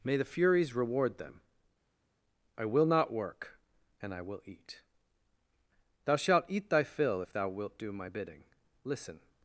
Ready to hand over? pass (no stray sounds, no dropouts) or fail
pass